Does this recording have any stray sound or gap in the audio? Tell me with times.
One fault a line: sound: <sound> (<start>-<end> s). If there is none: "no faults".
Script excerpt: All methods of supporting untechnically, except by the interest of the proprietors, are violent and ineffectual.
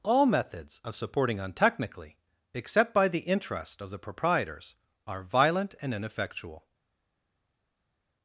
no faults